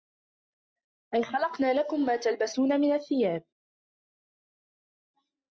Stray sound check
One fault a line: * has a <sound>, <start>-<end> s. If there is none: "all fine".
all fine